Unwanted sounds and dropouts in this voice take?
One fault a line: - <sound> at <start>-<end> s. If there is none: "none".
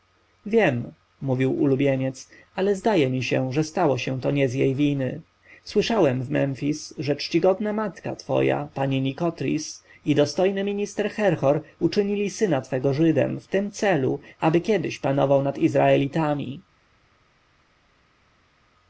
none